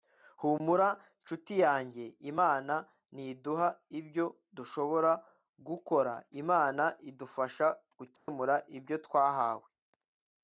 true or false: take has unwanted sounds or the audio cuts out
true